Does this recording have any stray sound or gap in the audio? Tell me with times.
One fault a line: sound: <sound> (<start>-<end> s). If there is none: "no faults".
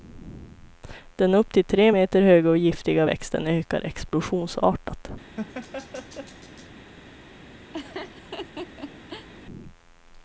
sound: laugh (5.4-6.7 s)
sound: laugh (7.7-9.3 s)